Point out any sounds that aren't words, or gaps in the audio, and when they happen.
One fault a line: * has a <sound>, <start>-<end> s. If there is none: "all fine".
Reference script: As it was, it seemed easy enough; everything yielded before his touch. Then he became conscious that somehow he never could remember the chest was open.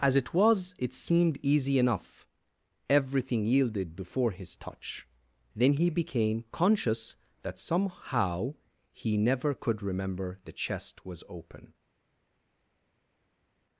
all fine